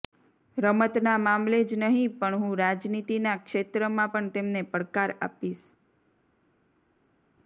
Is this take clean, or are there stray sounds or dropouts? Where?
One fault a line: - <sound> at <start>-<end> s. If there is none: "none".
none